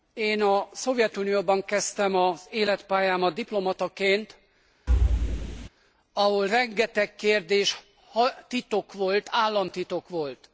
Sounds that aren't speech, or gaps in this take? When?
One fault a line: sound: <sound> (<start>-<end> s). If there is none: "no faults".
sound: thud (4.9-5.7 s)